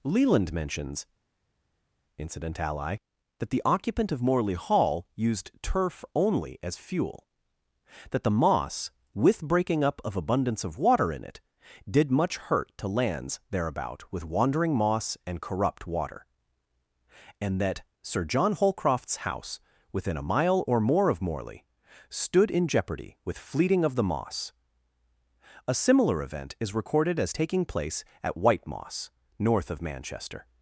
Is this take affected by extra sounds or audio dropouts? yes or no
no